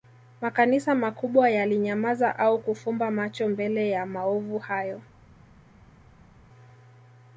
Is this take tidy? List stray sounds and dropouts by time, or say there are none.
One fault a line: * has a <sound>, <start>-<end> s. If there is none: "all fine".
all fine